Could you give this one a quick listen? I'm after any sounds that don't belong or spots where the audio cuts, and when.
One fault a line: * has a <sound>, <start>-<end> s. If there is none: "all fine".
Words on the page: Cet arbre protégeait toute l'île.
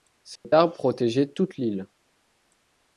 * has a dropout, 0.4-0.4 s